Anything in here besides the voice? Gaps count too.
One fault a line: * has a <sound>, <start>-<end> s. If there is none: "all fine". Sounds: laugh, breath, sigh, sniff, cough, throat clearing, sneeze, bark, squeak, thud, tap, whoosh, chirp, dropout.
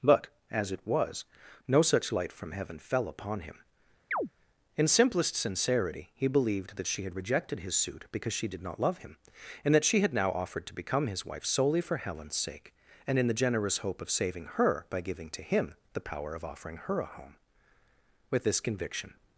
* has a chirp, 4.1-4.3 s